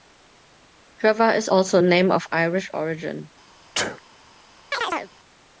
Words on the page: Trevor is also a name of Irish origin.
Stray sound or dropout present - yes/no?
yes